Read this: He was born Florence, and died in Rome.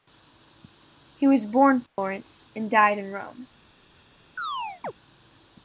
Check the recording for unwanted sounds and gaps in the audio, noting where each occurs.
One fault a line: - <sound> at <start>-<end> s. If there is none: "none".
- dropout at 1.9-2.0 s
- chirp at 4.4-4.9 s